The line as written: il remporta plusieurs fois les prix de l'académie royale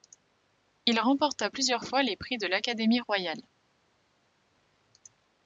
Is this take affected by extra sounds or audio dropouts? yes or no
no